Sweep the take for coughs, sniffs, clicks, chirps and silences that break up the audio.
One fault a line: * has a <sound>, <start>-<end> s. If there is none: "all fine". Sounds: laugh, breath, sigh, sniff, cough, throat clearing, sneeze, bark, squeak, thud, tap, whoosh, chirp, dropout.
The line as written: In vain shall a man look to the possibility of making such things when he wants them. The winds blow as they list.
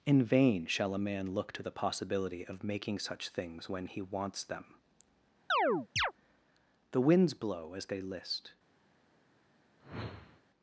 * has a chirp, 5.5-6.1 s
* has a whoosh, 9.8-10.4 s